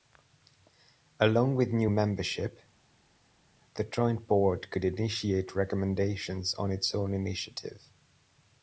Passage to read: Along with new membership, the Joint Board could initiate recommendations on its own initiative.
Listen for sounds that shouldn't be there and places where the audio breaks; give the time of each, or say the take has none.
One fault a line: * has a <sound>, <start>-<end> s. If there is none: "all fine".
all fine